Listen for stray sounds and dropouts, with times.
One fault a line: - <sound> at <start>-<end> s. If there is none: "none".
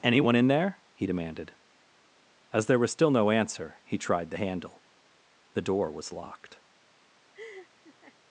- laugh at 7.3-8.2 s